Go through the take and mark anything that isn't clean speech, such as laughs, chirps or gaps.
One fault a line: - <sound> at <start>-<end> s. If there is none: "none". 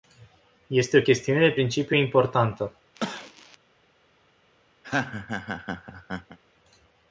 - cough at 2.9-3.6 s
- laugh at 4.8-6.4 s